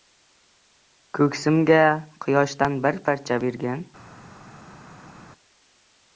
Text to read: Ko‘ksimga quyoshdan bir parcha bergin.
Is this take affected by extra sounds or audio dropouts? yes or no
no